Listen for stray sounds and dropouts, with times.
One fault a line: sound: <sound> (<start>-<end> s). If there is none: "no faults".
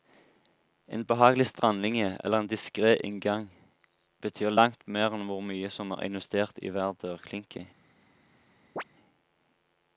sound: chirp (8.8-8.8 s)